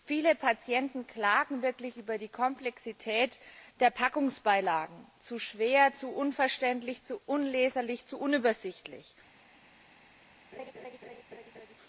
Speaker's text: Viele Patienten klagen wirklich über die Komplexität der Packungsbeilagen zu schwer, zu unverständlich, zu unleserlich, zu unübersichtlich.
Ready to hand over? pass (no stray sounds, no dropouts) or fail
fail